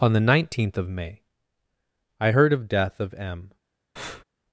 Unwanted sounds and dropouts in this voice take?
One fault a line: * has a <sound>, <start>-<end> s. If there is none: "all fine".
* has a breath, 4.0-4.2 s